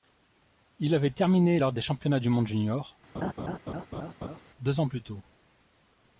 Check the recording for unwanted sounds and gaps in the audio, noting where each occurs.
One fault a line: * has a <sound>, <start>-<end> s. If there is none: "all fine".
* has a laugh, 3.1-4.4 s